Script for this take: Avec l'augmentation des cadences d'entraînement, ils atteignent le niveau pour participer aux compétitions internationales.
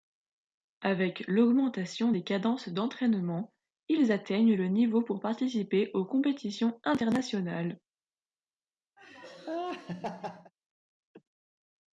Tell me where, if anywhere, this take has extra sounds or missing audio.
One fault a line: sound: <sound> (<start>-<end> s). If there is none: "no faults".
sound: laugh (9.0-10.5 s)